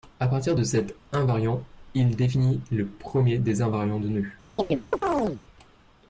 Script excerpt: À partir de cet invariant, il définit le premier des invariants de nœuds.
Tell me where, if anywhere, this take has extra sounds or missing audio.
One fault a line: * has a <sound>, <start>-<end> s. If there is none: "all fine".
* has a chirp, 4.6-5.4 s